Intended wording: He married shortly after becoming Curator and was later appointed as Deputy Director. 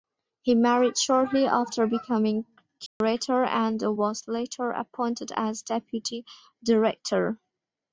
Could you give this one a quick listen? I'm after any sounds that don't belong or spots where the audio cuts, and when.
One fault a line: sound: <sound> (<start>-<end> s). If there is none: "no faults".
sound: dropout (2.9-3.0 s)